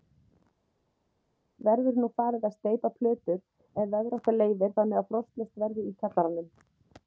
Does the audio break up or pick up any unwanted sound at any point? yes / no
no